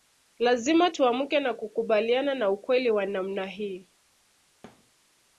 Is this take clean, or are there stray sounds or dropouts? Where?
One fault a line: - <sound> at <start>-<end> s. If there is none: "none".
- thud at 4.6-4.9 s